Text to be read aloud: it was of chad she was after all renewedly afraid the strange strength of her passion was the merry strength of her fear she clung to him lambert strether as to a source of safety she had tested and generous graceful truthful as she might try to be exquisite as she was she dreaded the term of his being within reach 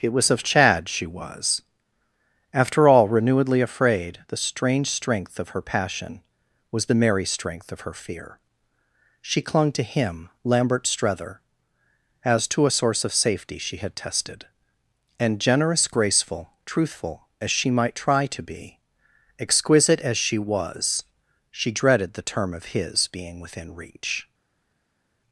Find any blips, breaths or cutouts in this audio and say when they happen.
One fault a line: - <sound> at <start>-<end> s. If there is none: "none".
none